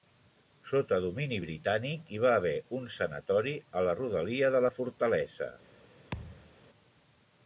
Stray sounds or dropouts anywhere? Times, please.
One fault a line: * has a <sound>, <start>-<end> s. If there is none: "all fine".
* has a thud, 6.1-6.5 s